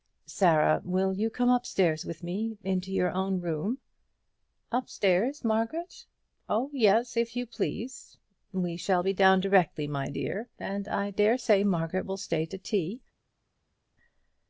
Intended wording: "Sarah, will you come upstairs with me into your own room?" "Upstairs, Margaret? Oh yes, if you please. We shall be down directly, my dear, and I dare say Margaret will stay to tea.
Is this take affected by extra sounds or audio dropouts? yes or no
no